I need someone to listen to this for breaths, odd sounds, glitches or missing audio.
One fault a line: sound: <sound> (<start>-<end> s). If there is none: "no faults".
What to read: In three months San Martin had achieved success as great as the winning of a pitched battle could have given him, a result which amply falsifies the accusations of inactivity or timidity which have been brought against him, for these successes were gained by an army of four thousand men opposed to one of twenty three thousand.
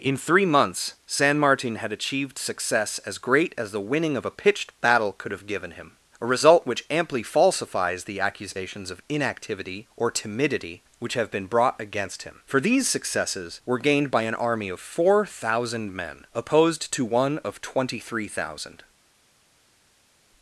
no faults